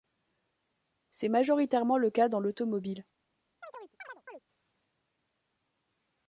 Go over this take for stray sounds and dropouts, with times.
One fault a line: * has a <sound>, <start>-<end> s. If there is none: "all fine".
* has a chirp, 3.6-4.4 s